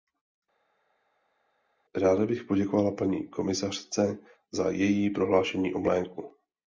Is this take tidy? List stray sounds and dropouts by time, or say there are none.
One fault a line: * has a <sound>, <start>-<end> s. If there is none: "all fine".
all fine